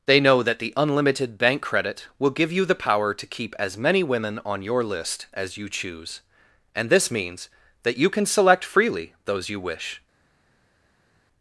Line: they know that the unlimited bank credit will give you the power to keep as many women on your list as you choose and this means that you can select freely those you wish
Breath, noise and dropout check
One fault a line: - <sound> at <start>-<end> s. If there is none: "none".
none